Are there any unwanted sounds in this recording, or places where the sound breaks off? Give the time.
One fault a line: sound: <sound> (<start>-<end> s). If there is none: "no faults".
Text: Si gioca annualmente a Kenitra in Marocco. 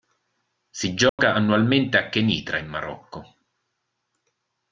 sound: dropout (1.1-1.2 s)